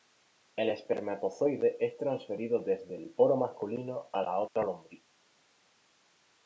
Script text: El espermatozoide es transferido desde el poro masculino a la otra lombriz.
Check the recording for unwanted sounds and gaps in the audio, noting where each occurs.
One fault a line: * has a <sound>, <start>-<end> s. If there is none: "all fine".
* has a dropout, 4.5-4.6 s